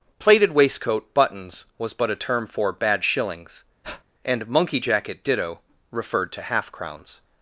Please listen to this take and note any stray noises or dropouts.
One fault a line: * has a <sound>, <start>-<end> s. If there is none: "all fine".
* has a breath, 3.8-4.0 s